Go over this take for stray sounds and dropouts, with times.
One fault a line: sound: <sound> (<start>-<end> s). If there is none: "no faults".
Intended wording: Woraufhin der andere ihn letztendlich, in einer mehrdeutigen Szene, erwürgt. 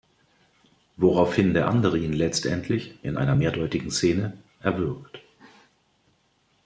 no faults